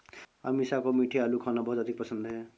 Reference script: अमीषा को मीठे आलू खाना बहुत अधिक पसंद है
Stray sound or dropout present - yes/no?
no